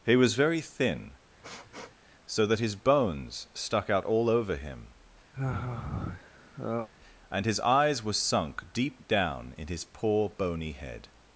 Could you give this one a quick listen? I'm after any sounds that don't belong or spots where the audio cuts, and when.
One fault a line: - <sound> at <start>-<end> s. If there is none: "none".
- sniff at 1.4-1.9 s
- sigh at 5.3-6.9 s